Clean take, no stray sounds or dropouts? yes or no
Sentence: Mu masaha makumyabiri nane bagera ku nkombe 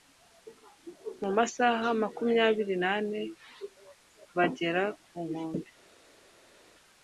yes